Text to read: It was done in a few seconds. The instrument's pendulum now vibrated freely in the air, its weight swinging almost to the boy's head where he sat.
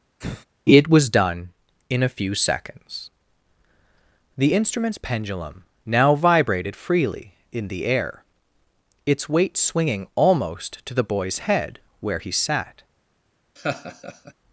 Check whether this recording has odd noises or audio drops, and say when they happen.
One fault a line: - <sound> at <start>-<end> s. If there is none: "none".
- sigh at 0.2-0.5 s
- laugh at 13.6-14.3 s